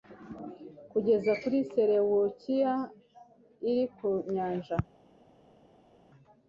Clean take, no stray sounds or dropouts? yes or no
yes